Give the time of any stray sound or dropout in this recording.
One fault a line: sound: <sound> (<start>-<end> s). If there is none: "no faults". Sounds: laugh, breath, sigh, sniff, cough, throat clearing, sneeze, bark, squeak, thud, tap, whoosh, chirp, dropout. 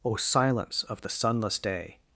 no faults